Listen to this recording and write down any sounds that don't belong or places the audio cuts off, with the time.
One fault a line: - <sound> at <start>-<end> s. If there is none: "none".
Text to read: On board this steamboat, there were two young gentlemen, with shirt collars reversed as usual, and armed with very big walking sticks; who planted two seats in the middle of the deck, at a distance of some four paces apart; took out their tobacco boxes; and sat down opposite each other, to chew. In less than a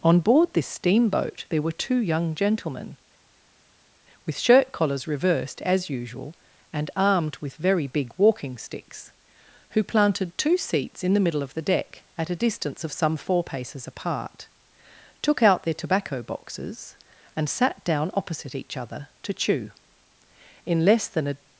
none